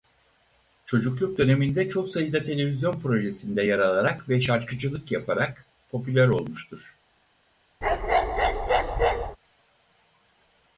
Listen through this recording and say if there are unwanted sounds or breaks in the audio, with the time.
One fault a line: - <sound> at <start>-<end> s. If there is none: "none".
- bark at 7.8-9.4 s